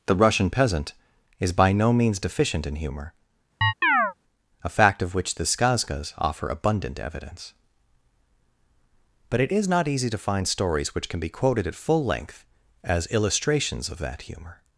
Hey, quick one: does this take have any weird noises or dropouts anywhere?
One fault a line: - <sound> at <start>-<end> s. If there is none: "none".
- chirp at 3.6-4.1 s